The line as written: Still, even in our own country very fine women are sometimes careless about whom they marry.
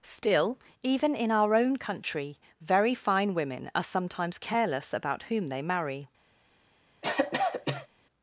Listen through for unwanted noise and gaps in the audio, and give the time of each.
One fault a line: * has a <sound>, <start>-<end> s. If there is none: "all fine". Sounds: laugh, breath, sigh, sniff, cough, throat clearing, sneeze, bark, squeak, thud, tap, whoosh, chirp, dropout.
* has a cough, 7.0-7.9 s